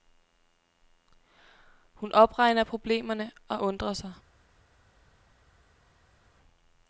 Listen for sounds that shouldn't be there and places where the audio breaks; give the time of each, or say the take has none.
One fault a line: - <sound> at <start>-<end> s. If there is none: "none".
none